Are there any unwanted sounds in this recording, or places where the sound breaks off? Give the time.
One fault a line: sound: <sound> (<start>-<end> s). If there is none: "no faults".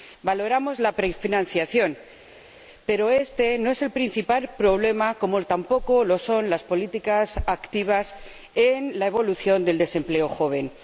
no faults